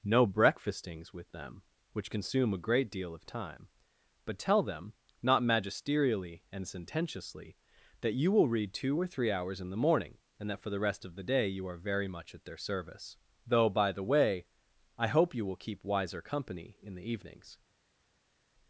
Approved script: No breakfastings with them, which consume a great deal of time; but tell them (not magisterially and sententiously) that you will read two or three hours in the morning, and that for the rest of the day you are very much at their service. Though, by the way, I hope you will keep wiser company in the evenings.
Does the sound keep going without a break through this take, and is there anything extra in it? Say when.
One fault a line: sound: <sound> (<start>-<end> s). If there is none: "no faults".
no faults